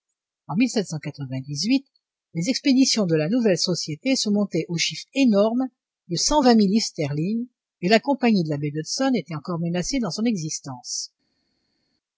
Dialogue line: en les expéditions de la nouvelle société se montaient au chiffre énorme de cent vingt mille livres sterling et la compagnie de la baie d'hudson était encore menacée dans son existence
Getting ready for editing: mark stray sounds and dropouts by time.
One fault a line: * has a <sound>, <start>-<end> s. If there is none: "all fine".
all fine